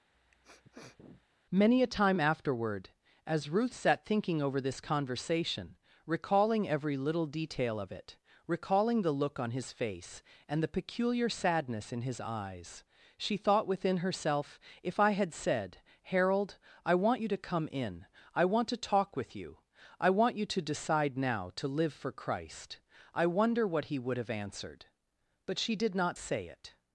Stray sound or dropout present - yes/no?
yes